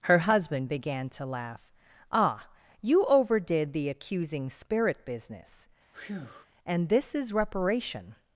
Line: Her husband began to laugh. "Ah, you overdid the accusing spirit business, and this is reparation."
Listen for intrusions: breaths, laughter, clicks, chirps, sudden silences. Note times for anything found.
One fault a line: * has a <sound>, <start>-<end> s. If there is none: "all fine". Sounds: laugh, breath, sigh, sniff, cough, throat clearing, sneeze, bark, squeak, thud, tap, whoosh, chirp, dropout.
* has a breath, 5.9-6.5 s